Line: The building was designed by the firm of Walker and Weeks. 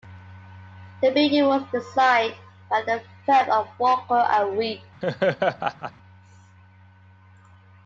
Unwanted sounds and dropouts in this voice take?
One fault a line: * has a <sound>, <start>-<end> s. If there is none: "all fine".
* has a laugh, 5.0-5.9 s